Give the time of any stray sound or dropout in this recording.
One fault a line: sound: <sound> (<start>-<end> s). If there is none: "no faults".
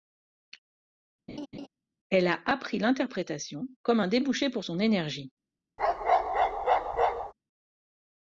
sound: laugh (1.3-1.7 s)
sound: bark (5.8-7.3 s)